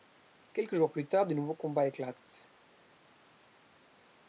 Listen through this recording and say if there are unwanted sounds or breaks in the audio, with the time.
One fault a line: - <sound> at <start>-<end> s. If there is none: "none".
none